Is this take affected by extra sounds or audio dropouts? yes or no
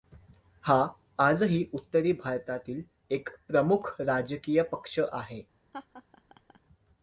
yes